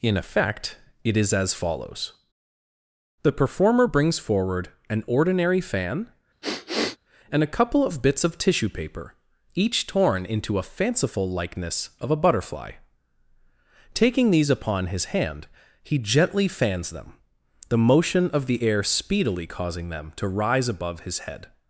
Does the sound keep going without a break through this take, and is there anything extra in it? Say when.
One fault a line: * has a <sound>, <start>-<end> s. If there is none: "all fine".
* has a sniff, 6.4-7.0 s